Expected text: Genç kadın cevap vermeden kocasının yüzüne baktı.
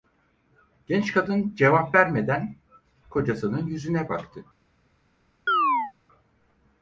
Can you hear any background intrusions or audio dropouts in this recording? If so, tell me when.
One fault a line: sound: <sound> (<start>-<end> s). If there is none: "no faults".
sound: chirp (5.5-5.9 s)